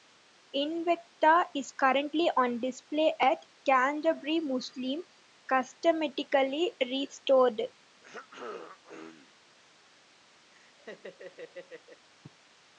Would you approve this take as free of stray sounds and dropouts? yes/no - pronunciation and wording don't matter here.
no